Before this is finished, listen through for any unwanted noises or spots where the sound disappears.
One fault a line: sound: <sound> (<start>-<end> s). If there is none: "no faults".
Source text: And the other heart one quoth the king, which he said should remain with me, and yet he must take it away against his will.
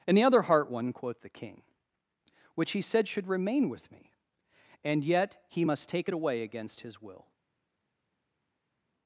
no faults